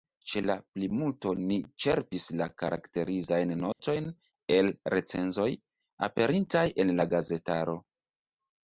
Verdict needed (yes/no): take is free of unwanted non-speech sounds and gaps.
no